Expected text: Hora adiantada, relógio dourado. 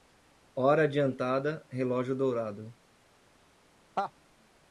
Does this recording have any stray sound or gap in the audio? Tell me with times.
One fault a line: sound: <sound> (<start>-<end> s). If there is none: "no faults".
sound: laugh (4.0-4.1 s)